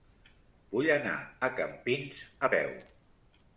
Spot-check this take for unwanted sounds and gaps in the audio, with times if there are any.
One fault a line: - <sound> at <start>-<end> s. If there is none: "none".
none